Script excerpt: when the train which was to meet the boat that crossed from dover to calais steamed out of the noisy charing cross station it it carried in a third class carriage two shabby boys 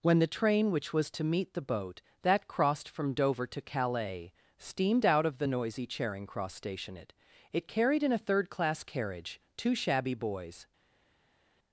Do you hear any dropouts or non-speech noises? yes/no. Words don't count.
no